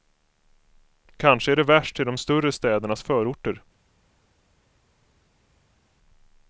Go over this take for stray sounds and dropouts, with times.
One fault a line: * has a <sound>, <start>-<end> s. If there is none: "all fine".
all fine